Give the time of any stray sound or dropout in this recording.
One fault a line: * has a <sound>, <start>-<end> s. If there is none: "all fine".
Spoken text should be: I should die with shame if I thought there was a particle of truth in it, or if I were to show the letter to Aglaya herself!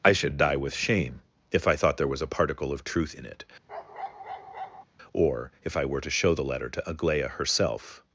* has a bark, 3.7-4.8 s